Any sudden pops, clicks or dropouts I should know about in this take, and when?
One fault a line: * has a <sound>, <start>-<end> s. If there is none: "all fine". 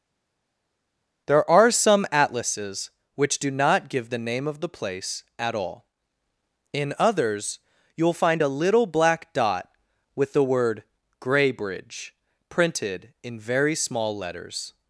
all fine